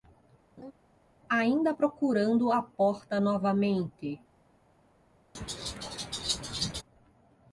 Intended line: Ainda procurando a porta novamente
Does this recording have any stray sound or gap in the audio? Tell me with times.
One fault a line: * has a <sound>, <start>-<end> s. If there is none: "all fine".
* has a laugh, 0.6-0.7 s
* has a laugh, 5.3-6.8 s